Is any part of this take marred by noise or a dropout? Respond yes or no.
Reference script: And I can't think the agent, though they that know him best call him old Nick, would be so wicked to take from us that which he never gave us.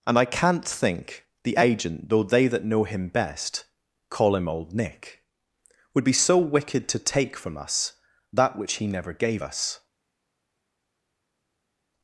no